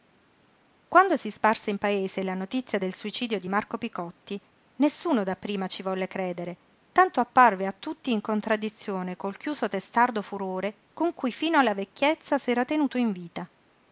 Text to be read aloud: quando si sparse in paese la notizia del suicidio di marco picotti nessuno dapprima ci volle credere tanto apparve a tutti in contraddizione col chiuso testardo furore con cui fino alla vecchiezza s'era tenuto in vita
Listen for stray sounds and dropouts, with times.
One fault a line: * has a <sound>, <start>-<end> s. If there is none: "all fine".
all fine